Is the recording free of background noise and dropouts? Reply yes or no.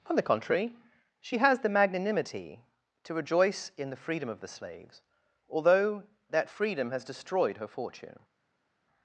yes